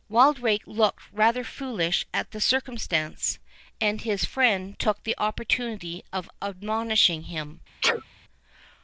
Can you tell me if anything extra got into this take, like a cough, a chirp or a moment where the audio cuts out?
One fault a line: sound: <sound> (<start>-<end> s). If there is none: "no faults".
sound: sneeze (7.8-8.1 s)